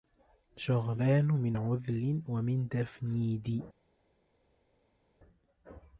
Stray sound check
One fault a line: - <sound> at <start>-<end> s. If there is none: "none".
none